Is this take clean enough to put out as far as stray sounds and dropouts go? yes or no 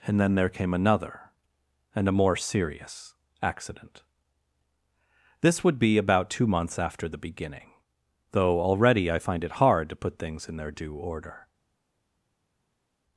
yes